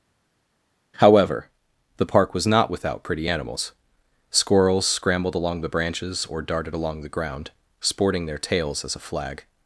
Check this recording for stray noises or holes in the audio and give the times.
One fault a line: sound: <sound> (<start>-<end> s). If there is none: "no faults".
no faults